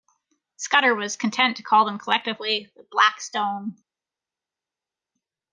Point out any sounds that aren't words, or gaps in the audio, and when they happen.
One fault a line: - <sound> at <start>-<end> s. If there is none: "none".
none